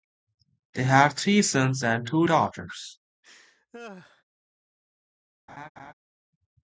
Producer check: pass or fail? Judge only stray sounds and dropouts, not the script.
fail